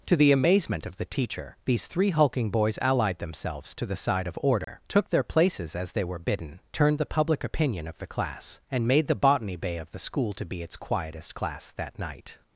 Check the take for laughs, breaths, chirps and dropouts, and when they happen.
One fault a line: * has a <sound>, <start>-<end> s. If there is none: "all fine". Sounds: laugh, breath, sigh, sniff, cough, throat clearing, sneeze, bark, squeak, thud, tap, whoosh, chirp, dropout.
* has a dropout, 4.6-4.7 s